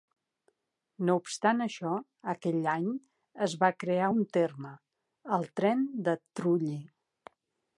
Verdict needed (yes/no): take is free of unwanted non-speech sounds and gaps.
yes